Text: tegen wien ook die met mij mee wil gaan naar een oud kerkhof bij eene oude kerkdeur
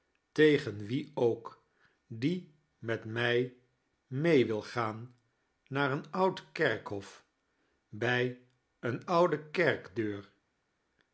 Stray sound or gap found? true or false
false